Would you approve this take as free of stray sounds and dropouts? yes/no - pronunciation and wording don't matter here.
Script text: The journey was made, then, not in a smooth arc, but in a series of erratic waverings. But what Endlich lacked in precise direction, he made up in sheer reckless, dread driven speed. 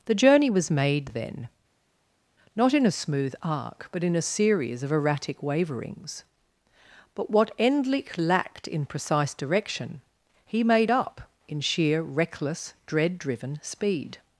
yes